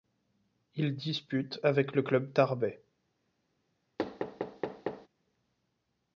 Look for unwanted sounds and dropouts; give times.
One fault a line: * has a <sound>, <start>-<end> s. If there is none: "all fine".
* has a thud, 4.0-5.1 s